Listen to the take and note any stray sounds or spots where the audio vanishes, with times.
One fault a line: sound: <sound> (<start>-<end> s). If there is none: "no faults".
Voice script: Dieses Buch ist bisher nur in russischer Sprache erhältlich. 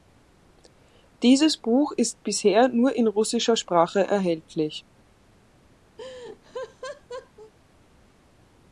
sound: laugh (6.0-7.5 s)